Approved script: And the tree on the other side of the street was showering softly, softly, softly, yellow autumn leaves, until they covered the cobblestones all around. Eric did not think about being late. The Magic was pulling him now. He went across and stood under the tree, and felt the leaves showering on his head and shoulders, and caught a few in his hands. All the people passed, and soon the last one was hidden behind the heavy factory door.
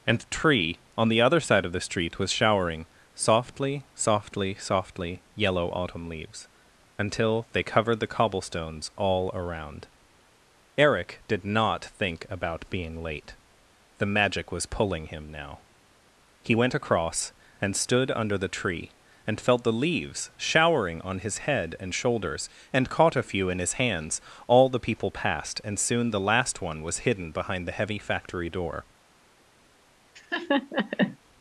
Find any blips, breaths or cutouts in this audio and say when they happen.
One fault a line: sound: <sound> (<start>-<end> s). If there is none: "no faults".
sound: laugh (30.2-31.2 s)